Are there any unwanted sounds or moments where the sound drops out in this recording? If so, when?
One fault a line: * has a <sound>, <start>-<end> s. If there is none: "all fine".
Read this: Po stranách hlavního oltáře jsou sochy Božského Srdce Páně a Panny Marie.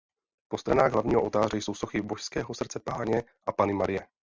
all fine